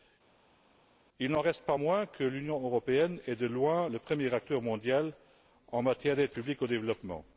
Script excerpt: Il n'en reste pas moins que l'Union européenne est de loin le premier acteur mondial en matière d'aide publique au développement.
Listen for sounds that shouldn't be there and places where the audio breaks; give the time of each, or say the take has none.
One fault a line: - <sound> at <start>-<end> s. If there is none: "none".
none